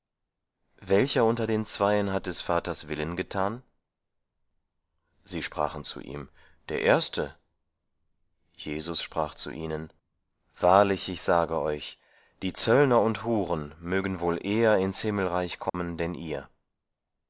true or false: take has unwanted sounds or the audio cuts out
true